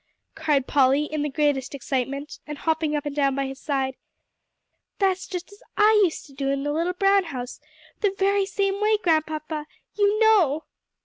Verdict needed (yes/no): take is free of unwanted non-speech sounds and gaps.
yes